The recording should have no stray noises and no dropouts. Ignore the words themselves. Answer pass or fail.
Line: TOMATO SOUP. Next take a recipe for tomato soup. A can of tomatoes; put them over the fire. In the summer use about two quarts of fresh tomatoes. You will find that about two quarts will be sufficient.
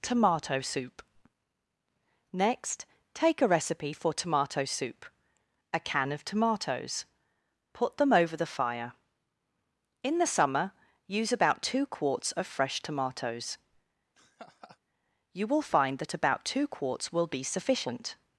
fail